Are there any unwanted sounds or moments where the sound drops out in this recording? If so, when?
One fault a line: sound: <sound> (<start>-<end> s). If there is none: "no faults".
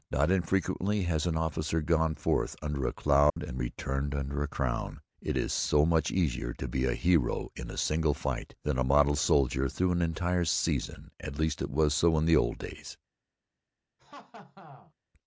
sound: dropout (3.3-3.4 s)
sound: laugh (14.0-14.9 s)